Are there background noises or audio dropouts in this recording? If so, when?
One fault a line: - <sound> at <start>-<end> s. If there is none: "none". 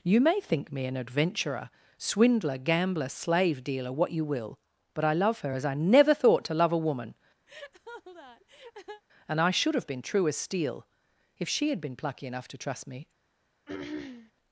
- laugh at 7.5-9.0 s
- throat clearing at 13.7-14.3 s